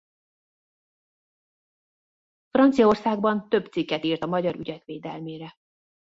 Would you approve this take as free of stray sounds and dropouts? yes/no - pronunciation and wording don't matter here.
yes